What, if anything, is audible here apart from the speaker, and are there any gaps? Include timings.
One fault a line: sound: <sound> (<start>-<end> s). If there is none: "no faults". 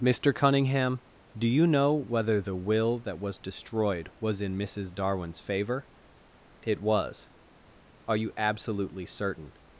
no faults